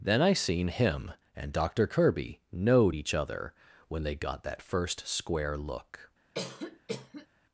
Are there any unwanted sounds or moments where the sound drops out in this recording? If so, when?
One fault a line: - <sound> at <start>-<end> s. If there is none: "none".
- cough at 6.3-7.3 s